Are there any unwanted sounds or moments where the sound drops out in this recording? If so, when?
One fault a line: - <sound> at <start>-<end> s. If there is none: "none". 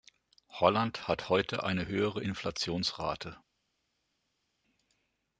none